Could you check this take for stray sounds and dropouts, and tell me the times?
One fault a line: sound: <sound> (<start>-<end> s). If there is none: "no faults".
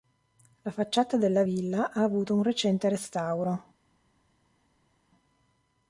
no faults